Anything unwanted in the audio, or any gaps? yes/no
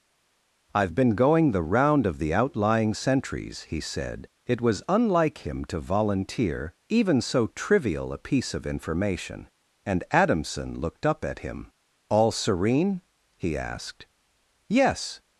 no